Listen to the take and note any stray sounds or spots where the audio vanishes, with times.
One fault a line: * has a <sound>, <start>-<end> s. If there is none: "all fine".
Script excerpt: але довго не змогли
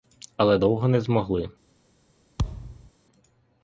* has a thud, 2.4-2.9 s